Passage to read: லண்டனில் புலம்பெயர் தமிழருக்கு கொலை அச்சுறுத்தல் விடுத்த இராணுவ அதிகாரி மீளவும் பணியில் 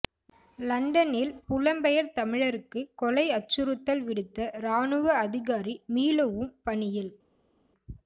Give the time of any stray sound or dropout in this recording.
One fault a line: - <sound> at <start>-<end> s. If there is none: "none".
none